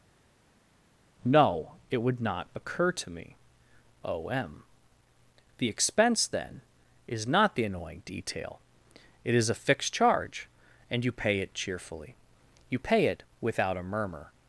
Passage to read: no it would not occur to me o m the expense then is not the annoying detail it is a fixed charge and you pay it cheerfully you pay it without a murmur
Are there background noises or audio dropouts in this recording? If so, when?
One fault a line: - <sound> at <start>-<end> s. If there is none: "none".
none